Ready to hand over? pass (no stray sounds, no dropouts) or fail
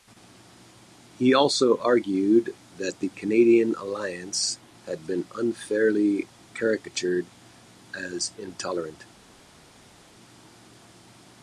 pass